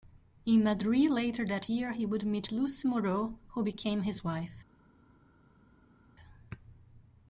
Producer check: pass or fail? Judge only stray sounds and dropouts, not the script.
pass